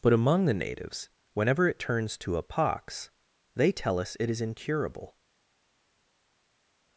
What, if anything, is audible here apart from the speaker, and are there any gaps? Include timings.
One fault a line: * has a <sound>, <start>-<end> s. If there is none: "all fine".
all fine